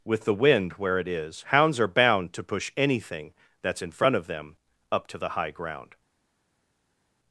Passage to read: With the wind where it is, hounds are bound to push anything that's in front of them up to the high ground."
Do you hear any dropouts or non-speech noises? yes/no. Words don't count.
no